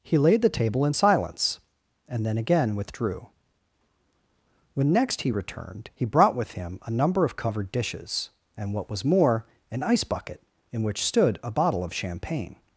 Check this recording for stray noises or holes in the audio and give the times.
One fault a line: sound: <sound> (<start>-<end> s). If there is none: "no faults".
no faults